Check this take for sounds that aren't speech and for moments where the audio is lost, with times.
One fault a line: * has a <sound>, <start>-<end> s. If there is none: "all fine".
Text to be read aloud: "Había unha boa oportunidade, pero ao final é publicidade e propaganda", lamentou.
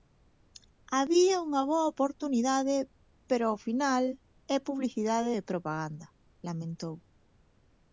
all fine